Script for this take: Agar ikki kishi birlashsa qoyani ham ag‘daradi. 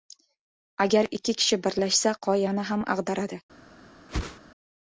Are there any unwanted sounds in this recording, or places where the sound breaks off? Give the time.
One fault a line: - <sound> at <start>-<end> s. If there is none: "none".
- whoosh at 4.1-4.4 s